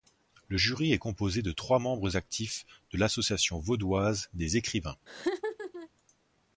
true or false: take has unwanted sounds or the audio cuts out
true